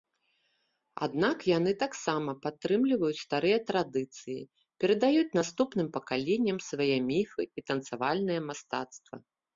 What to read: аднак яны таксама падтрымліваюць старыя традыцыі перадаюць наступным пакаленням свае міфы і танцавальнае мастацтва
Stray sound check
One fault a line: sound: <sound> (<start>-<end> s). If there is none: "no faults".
no faults